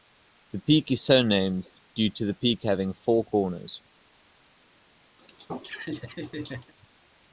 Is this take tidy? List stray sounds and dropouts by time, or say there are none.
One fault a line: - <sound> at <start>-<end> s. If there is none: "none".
- laugh at 5.2-6.7 s